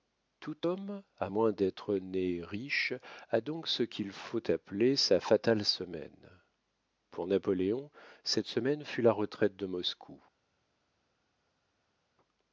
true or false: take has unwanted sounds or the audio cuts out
false